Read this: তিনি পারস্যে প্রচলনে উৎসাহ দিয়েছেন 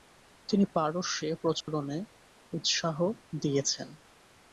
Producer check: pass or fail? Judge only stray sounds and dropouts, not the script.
fail